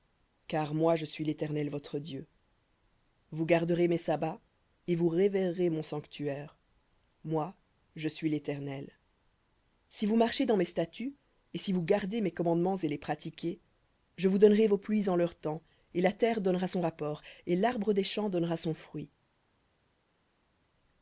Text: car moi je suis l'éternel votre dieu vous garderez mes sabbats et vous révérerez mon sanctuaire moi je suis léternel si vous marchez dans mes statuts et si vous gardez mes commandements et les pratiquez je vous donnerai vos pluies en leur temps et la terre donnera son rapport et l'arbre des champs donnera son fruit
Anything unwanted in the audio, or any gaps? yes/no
no